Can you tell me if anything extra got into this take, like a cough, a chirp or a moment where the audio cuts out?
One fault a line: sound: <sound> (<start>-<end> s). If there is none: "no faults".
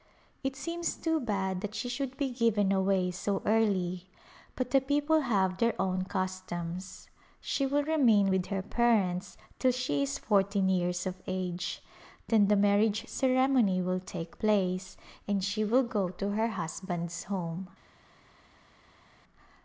no faults